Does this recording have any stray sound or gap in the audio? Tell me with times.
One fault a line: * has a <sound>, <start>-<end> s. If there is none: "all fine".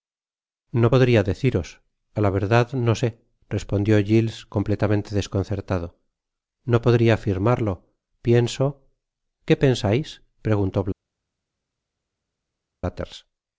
all fine